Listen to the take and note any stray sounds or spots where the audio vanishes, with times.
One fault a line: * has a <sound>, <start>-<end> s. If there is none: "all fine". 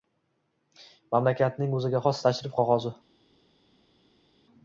all fine